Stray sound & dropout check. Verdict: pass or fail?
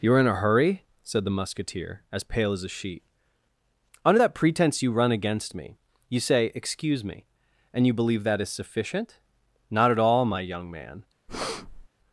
fail